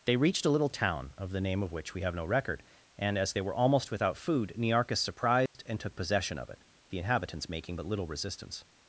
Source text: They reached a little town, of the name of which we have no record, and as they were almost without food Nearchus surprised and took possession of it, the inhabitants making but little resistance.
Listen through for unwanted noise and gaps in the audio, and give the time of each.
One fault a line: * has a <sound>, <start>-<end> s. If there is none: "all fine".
* has a dropout, 5.5-5.5 s